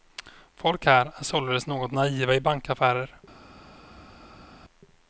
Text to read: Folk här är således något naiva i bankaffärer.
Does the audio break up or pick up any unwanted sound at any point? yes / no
no